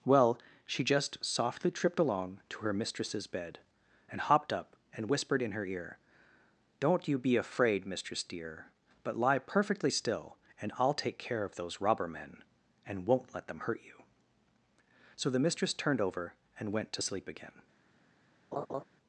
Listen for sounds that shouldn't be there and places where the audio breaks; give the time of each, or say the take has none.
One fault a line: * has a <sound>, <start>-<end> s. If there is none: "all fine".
* has a laugh, 18.5-18.8 s